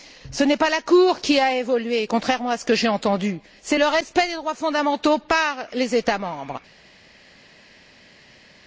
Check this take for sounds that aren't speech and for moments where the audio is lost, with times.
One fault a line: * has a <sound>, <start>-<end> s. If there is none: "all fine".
all fine